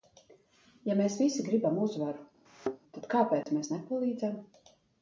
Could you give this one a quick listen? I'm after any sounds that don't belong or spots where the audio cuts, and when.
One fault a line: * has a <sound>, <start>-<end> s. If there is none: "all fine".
* has a thud, 2.5-2.8 s
* has a dropout, 3.4-3.5 s